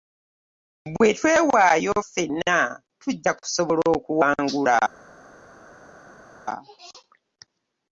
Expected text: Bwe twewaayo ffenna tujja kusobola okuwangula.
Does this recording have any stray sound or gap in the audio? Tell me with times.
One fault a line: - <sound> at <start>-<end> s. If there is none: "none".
none